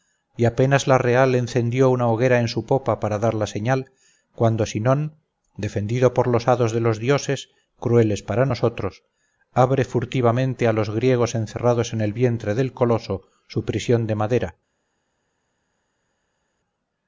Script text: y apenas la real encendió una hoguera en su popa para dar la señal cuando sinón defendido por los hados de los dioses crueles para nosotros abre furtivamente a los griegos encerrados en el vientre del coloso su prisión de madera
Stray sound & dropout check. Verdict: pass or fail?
pass